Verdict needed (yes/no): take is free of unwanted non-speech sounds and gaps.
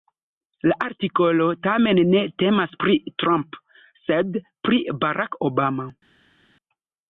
yes